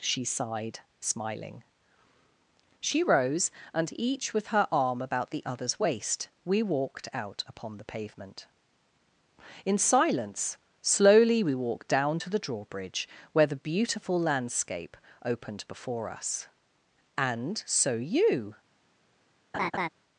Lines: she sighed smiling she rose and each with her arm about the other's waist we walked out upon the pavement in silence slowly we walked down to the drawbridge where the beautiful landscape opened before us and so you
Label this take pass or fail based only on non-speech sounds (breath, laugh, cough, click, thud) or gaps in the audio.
fail